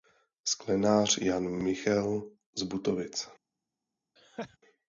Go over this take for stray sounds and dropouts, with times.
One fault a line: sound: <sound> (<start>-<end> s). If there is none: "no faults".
sound: laugh (4.2-4.6 s)